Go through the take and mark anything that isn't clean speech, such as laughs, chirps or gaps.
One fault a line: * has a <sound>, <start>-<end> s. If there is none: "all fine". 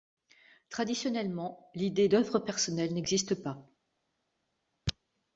all fine